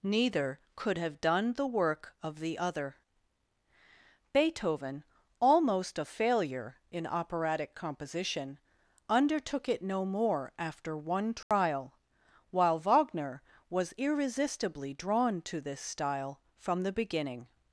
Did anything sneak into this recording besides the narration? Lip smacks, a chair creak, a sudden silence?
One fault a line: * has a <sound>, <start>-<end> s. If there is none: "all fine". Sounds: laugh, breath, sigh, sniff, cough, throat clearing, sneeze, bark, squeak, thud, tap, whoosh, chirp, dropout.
* has a dropout, 11.4-11.5 s